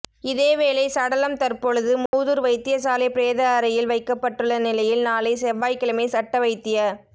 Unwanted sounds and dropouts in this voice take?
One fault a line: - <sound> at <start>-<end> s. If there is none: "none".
- dropout at 2.1-2.1 s